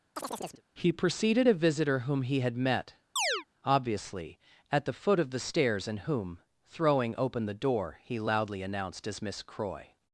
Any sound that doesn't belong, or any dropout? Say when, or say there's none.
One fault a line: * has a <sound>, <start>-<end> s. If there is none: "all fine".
* has a chirp, 0.2-0.6 s
* has a chirp, 3.2-3.4 s